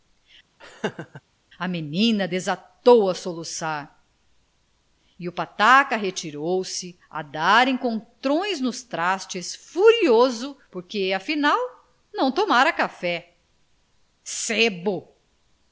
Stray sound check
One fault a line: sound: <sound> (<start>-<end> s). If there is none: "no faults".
sound: laugh (0.6-1.2 s)